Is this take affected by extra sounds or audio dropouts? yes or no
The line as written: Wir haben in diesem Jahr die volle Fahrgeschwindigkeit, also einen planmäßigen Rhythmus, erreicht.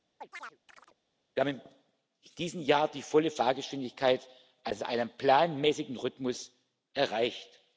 yes